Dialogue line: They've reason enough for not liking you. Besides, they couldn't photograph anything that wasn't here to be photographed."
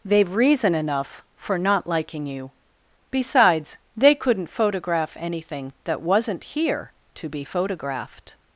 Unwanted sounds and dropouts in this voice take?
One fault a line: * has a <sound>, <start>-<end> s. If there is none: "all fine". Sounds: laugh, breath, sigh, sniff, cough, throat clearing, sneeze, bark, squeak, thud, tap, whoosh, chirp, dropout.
all fine